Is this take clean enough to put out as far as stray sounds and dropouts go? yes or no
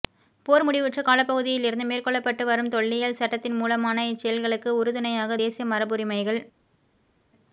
yes